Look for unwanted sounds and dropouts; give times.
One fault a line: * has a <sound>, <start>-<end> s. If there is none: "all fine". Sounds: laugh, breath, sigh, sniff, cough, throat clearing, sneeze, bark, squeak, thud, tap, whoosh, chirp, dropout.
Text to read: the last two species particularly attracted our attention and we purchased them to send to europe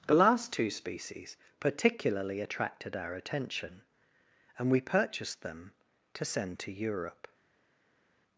all fine